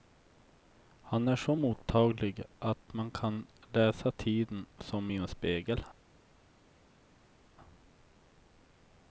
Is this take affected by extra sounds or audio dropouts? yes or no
no